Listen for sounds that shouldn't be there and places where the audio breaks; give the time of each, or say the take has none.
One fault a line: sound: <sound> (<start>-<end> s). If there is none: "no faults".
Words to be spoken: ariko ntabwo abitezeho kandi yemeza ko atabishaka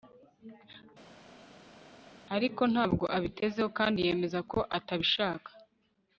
no faults